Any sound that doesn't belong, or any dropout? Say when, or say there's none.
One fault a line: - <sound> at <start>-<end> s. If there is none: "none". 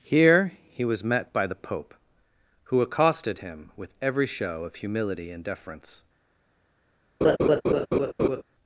- laugh at 7.2-8.4 s